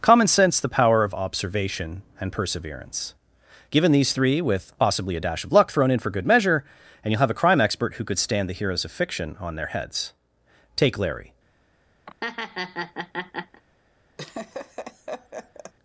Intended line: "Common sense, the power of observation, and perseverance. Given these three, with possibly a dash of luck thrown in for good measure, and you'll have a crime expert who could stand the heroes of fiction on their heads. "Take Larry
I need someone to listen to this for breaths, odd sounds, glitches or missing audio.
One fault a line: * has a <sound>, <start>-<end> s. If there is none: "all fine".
* has a laugh, 12.1-13.6 s
* has a laugh, 14.2-15.7 s